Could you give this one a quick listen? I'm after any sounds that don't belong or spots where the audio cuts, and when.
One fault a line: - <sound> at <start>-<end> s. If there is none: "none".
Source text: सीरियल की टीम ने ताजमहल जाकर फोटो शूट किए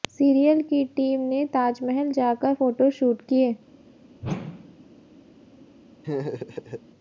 - whoosh at 4.2-4.9 s
- laugh at 6.0-6.8 s